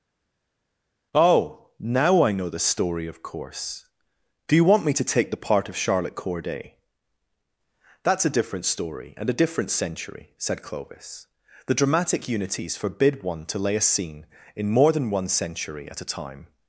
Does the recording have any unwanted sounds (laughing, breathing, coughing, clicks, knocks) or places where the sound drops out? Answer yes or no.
no